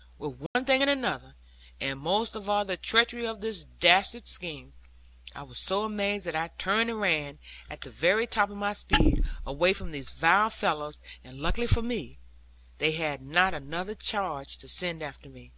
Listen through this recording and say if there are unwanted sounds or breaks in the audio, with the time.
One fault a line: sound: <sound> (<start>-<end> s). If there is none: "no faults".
sound: dropout (0.5-0.6 s)